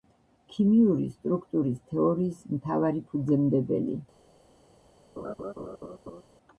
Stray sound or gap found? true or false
true